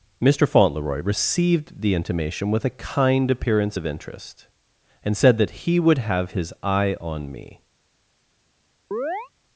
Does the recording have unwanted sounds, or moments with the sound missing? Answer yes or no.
yes